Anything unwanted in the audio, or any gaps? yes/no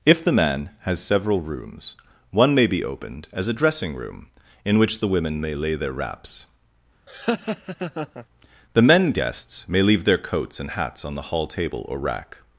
yes